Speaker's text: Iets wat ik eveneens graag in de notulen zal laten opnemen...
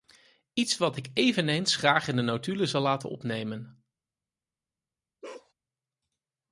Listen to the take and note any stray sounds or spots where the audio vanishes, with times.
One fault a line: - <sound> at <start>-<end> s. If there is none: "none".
- bark at 5.2-5.5 s